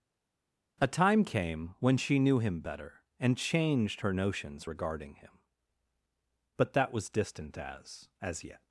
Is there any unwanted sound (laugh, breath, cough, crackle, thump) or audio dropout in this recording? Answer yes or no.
no